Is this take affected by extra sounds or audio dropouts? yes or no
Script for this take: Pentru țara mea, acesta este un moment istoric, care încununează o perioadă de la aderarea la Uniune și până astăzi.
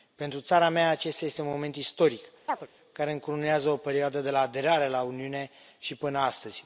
yes